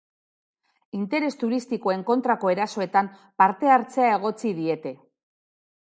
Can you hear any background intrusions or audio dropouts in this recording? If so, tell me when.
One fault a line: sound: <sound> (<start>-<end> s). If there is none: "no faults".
no faults